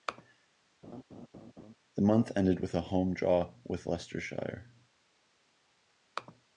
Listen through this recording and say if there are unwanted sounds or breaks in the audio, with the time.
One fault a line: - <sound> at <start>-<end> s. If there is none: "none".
- laugh at 0.8-1.8 s